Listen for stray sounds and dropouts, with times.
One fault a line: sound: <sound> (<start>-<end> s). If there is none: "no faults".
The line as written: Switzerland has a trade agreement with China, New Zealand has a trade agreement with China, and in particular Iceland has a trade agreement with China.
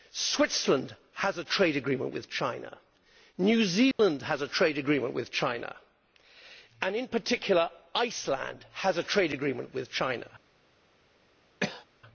sound: dropout (3.9-4.0 s)
sound: cough (11.6-11.8 s)